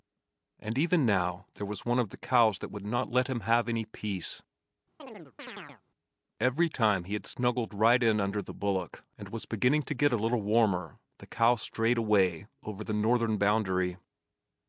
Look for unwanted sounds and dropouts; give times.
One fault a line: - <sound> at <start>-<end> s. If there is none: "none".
- chirp at 5.0-5.8 s